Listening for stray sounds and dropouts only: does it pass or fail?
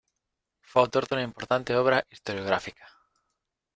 pass